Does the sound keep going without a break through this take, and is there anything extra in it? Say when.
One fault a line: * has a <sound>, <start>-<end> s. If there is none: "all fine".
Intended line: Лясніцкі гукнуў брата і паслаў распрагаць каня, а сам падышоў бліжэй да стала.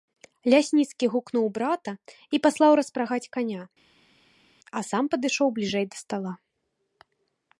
all fine